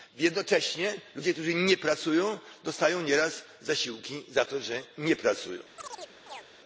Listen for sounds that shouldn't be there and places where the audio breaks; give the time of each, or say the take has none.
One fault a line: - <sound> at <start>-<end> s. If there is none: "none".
- chirp at 5.8-6.5 s